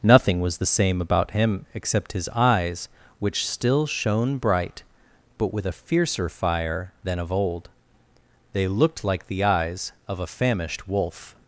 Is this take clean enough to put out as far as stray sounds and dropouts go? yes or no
yes